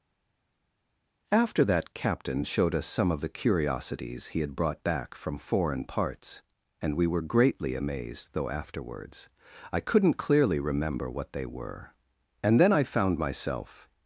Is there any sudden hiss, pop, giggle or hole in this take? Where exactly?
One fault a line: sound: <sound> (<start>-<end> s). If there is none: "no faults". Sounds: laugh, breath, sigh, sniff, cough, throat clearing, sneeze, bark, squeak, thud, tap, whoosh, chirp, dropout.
no faults